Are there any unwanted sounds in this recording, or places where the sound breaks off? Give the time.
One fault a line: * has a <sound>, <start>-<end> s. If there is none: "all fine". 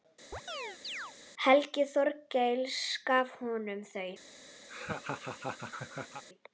* has a chirp, 0.3-1.1 s
* has a laugh, 4.7-6.2 s